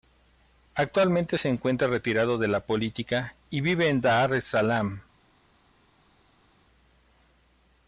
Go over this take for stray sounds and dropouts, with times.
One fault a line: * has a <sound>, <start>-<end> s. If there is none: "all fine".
all fine